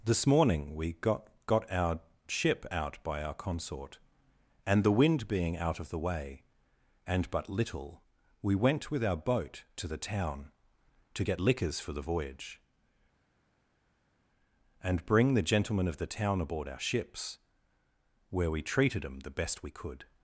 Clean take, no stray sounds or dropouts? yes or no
yes